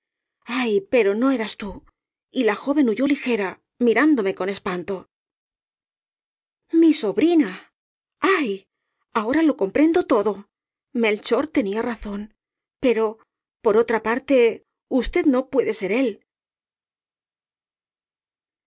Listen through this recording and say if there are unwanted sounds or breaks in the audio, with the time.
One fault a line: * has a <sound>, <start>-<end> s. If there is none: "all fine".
all fine